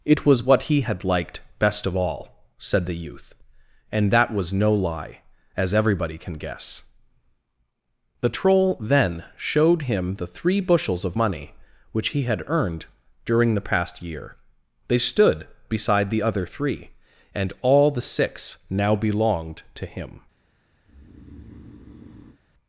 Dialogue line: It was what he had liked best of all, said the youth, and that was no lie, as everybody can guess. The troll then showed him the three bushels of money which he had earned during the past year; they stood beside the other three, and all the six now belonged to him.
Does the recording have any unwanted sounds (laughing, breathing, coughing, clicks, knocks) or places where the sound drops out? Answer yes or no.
yes